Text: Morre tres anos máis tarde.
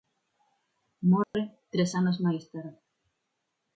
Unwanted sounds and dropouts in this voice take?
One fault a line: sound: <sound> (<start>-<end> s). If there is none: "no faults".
sound: dropout (1.2-1.3 s)